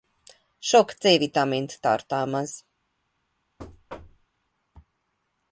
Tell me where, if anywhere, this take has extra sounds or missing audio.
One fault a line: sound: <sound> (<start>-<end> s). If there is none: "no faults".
sound: thud (3.6-4.3 s)